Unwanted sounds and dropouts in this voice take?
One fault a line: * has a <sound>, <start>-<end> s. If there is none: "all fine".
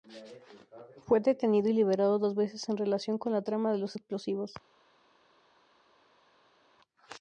all fine